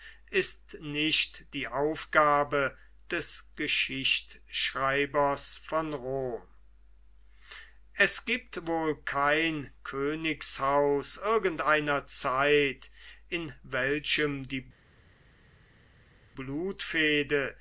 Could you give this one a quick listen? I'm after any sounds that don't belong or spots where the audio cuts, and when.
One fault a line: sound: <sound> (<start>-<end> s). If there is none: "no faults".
no faults